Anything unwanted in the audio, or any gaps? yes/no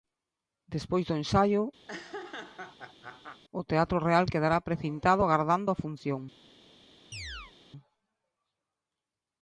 yes